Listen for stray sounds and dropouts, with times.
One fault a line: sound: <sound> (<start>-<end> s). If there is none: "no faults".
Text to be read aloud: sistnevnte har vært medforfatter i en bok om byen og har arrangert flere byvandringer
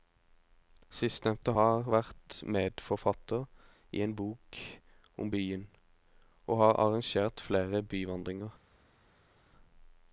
no faults